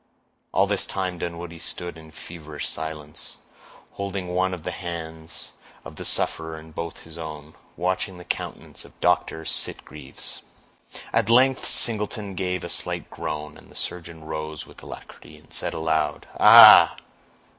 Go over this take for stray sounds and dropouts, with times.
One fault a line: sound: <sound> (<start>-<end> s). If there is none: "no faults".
no faults